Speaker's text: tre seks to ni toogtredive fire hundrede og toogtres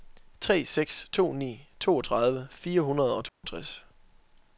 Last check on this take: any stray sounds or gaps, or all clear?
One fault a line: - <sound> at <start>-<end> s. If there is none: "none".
- dropout at 3.3-3.4 s